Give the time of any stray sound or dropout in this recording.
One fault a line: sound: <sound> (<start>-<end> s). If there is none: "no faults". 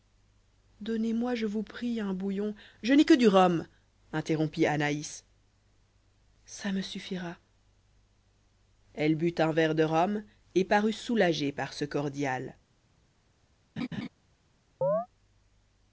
sound: laugh (13.8-14.1 s)
sound: chirp (14.8-15.1 s)